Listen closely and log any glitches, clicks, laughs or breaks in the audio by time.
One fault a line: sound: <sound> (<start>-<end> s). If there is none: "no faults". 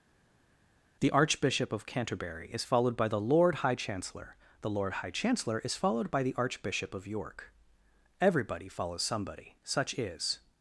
no faults